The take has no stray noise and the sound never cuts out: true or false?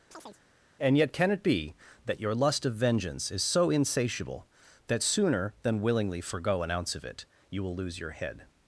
false